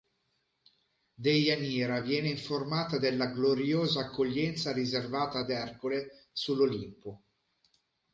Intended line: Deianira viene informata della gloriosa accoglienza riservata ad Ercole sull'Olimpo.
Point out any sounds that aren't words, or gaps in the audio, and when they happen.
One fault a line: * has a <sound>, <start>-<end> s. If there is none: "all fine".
all fine